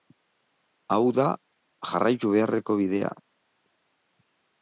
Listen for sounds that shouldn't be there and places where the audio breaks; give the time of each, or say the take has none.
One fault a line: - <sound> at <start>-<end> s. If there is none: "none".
none